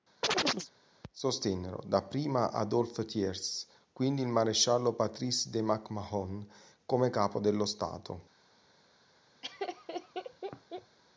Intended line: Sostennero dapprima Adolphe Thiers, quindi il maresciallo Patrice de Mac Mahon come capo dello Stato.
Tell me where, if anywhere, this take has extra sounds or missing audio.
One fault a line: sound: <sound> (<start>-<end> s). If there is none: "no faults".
sound: chirp (0.2-0.7 s)
sound: laugh (9.4-11.0 s)